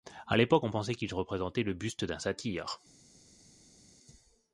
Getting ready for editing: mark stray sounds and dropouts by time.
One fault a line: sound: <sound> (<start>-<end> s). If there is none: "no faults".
no faults